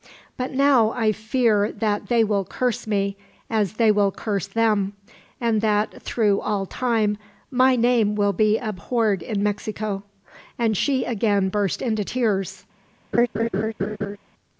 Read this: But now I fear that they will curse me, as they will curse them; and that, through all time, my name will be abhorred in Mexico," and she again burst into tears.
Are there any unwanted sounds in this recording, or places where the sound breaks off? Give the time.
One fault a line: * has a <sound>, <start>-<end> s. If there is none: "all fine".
* has a laugh, 13.1-14.2 s